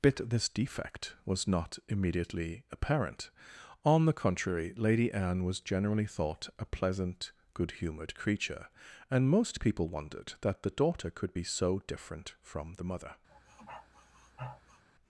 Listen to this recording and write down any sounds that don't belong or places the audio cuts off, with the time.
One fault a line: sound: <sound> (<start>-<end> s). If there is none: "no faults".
sound: sniff (13.3-14.8 s)